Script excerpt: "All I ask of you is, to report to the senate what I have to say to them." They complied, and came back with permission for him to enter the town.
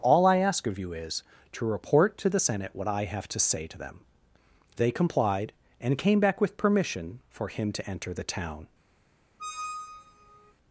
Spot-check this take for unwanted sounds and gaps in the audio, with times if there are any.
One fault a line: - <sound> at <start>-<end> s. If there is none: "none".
- squeak at 9.4-10.5 s